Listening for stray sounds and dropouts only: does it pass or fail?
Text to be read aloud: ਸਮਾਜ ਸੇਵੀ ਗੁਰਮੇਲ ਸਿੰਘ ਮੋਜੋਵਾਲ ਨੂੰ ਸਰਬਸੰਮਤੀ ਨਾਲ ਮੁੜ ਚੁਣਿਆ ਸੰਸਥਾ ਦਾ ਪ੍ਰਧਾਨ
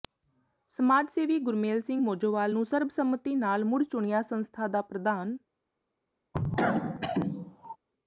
fail